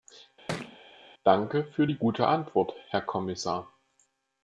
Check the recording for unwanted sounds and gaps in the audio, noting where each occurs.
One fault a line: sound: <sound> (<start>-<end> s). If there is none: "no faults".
sound: thud (0.5-0.8 s)